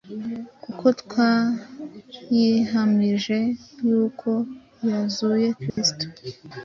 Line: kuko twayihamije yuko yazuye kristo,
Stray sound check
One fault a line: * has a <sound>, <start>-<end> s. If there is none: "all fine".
* has a dropout, 5.7-5.8 s